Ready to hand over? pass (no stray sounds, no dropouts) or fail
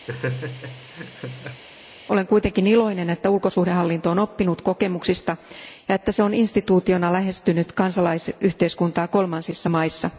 fail